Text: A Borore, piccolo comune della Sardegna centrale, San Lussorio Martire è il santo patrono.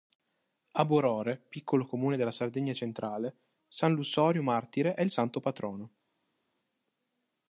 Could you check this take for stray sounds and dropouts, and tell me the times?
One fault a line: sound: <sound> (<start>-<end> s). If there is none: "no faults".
no faults